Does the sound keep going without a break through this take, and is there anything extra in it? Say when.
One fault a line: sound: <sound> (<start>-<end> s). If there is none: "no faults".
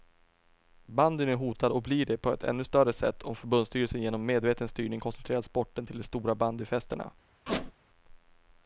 sound: squeak (7.5-7.7 s)